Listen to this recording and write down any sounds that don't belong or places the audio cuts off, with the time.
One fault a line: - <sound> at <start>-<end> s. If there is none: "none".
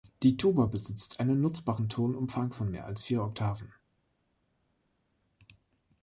none